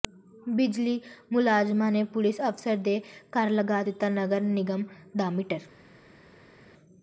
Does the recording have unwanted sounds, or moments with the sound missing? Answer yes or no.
no